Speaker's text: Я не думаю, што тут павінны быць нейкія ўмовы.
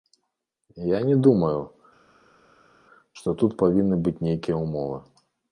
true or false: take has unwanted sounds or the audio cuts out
false